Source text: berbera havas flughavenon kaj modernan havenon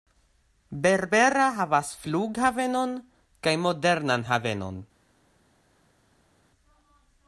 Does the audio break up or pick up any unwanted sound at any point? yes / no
no